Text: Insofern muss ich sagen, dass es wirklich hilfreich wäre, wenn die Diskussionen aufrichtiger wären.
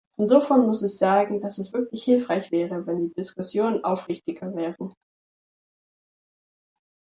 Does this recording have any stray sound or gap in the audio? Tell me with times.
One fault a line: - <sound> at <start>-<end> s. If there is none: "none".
none